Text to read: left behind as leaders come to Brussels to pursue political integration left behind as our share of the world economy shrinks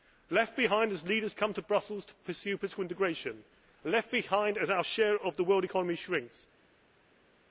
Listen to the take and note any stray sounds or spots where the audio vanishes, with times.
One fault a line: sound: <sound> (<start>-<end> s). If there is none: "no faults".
no faults